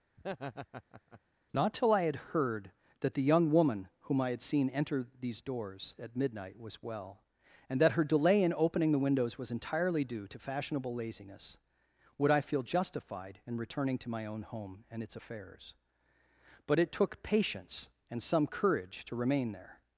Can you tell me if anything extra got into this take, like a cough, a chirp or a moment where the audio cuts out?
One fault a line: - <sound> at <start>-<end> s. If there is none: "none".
- laugh at 0.2-1.2 s